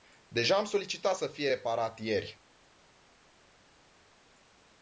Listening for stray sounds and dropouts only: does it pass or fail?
pass